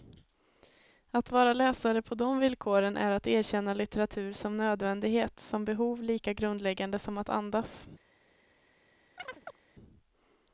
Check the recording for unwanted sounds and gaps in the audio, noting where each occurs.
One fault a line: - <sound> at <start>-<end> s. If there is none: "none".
- chirp at 9.2-9.6 s